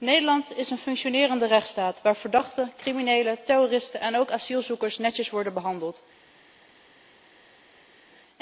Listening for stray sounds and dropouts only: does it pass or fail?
pass